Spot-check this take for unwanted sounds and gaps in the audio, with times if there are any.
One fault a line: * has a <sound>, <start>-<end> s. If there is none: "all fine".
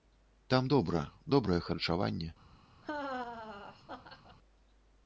* has a laugh, 2.8-4.4 s